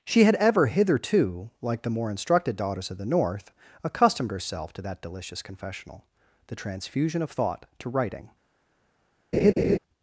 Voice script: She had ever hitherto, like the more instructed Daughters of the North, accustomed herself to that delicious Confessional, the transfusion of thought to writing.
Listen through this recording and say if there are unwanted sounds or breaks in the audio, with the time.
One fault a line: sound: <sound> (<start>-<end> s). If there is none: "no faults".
sound: laugh (9.3-9.8 s)